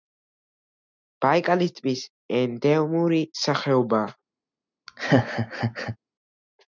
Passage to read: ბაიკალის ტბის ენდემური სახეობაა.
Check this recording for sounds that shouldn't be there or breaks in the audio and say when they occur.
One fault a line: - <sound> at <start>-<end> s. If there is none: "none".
- laugh at 4.9-6.0 s